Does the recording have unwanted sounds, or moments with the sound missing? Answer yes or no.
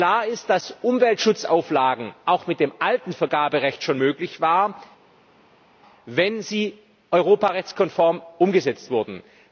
no